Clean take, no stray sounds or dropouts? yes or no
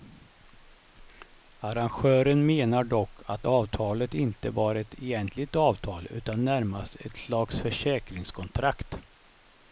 yes